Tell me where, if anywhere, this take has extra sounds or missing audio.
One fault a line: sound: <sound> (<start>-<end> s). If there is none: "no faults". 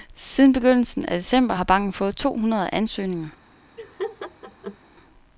sound: laugh (3.8-4.8 s)